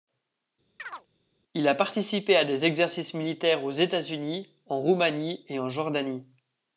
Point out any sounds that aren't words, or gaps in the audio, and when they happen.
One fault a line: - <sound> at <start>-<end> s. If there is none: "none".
- chirp at 0.8-1.1 s